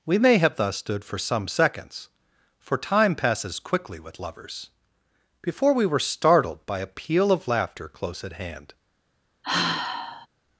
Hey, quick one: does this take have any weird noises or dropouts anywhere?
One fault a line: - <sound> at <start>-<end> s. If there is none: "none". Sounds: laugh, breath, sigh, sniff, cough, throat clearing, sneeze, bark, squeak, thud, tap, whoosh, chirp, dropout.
- sigh at 9.4-10.3 s